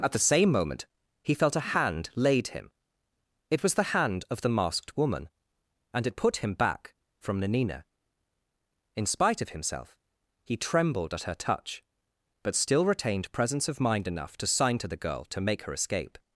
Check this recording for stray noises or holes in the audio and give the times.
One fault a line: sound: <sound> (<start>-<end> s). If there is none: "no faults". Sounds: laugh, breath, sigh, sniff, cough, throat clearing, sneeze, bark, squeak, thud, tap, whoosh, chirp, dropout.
no faults